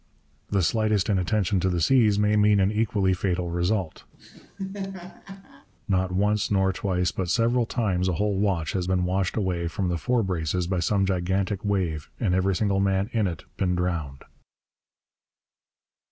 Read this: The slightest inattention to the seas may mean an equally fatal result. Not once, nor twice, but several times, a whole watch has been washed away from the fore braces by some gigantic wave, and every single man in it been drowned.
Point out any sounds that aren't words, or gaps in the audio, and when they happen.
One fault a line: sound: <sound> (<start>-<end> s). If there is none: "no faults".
sound: laugh (4.1-5.7 s)